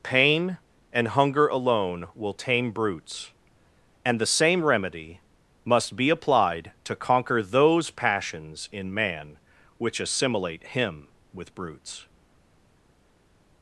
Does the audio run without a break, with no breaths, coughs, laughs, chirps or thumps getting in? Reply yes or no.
yes